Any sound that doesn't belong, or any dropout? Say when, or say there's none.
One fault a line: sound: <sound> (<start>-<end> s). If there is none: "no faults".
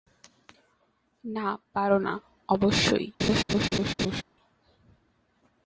sound: laugh (3.2-4.2 s)